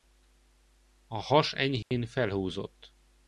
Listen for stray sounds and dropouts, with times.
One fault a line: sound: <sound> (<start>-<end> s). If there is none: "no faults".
sound: dropout (1.8-1.9 s)